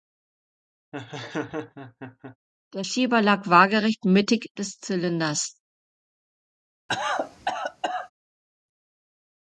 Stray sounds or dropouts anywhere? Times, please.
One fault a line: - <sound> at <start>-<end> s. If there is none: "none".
- laugh at 0.9-2.4 s
- cough at 6.9-8.1 s